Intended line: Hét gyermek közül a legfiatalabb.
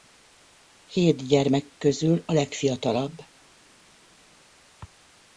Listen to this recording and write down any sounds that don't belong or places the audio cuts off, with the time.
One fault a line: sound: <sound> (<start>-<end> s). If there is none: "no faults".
no faults